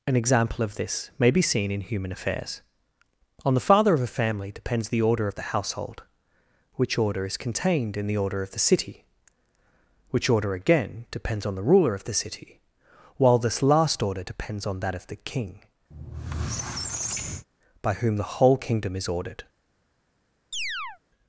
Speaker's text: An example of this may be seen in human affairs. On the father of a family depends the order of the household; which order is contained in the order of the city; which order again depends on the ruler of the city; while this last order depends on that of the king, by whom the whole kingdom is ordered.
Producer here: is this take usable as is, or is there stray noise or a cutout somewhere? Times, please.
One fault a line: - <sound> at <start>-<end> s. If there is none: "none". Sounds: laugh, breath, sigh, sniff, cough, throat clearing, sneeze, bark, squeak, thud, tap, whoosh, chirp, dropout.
- squeak at 15.9-17.5 s
- chirp at 20.5-21.0 s